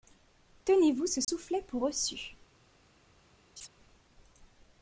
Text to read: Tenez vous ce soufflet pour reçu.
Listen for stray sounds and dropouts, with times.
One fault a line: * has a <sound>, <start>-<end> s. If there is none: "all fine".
* has a dropout, 1.2-1.3 s
* has a laugh, 3.6-3.7 s